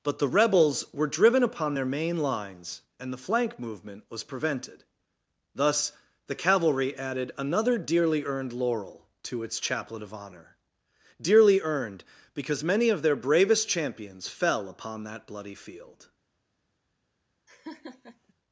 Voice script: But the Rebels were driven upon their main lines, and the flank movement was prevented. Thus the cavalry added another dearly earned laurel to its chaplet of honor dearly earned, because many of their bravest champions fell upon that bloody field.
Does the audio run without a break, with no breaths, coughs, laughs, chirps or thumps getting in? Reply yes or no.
no